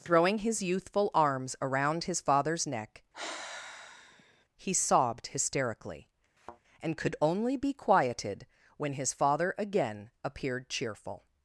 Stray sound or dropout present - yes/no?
yes